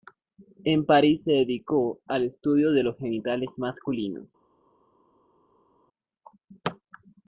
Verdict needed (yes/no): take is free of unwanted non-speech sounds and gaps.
yes